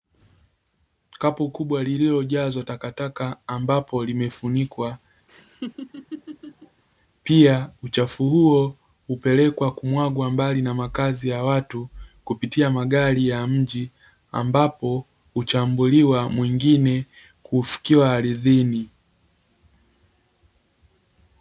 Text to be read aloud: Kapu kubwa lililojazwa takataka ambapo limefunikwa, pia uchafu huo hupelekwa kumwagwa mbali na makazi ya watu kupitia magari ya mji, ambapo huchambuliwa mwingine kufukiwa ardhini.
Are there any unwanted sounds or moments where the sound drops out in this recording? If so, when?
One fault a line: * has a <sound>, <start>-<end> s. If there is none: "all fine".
* has a laugh, 5.3-6.8 s